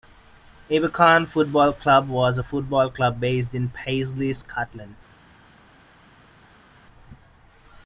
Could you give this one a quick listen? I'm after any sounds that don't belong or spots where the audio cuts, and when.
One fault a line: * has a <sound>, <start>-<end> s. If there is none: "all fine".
all fine